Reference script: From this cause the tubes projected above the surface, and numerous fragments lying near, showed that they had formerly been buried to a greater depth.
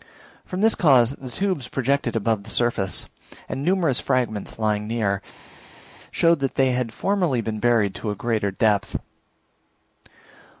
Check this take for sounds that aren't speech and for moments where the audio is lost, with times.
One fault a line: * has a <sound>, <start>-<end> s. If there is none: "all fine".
all fine